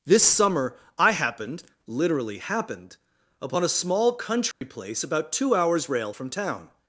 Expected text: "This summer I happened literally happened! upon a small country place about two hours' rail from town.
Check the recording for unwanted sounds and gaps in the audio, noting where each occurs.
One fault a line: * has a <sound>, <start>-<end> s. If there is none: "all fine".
* has a dropout, 4.5-4.6 s